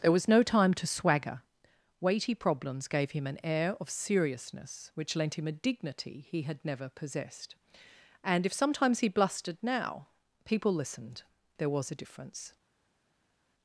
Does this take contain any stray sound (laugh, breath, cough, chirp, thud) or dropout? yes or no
no